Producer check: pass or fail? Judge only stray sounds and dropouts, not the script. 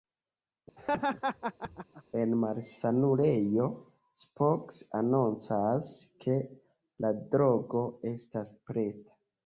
fail